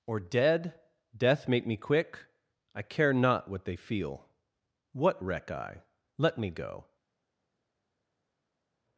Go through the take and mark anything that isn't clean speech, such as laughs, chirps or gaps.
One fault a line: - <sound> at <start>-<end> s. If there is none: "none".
none